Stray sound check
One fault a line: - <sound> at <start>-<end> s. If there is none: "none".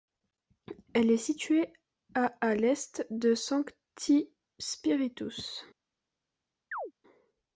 - chirp at 6.7-6.9 s